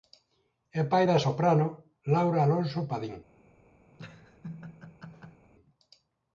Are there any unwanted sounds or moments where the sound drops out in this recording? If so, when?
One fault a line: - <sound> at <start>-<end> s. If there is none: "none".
- laugh at 3.9-5.5 s